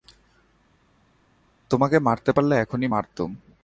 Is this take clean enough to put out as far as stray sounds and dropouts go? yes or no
yes